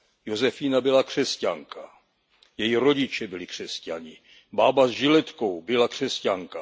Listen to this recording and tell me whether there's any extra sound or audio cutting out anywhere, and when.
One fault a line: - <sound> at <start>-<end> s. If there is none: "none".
none